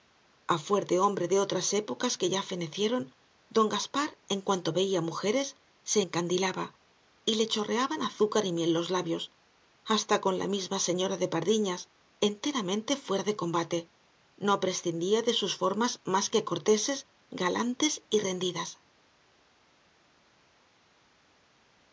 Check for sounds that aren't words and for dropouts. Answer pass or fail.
pass